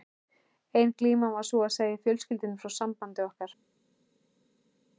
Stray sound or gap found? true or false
false